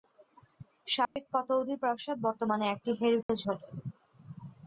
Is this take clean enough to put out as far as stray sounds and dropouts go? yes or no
no